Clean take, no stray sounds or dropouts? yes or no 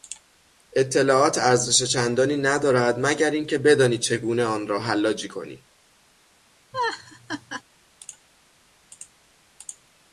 no